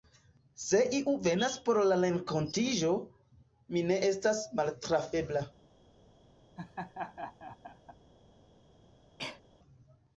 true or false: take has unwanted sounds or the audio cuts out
true